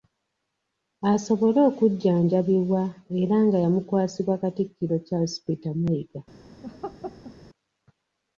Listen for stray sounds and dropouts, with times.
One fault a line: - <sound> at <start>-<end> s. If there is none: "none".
- laugh at 6.6-7.4 s